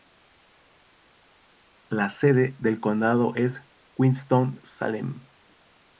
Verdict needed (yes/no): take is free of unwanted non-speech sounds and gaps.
yes